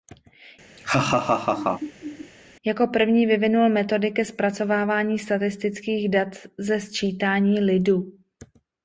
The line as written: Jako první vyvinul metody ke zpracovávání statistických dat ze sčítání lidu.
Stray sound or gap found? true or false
true